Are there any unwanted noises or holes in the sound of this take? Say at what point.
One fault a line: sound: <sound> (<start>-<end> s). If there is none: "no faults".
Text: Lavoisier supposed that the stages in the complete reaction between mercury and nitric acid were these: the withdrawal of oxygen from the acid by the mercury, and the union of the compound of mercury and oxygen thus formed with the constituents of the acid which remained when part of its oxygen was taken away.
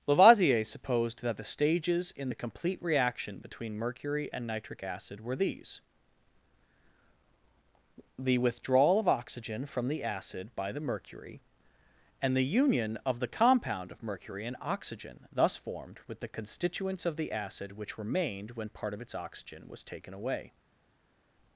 no faults